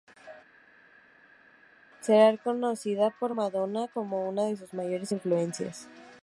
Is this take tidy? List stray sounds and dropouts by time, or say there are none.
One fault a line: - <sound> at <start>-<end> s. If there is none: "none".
none